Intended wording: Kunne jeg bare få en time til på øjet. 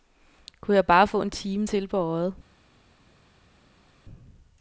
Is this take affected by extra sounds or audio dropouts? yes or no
no